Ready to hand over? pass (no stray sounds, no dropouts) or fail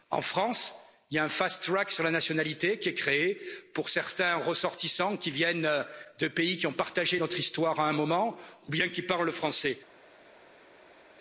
pass